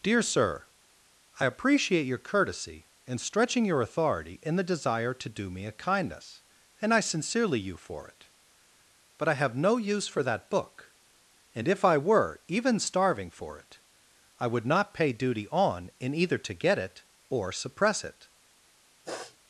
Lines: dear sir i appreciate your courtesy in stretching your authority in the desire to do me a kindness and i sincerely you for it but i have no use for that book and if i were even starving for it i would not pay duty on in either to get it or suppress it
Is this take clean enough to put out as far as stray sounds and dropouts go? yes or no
no